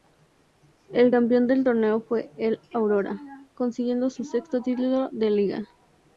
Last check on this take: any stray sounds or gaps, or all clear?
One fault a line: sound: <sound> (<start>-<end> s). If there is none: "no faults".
no faults